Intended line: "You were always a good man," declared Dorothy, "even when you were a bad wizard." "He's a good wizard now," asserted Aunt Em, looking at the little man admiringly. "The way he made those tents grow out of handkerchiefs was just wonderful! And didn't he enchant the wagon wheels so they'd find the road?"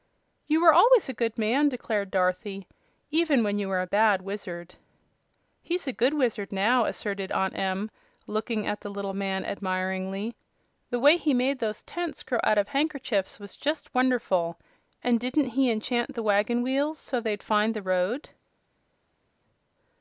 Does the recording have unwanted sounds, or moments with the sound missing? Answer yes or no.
no